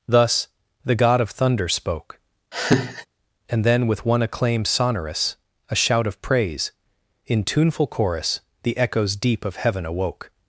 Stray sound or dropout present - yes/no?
yes